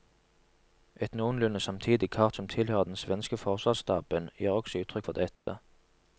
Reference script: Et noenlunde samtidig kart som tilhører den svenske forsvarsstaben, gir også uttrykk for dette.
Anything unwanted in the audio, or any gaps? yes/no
yes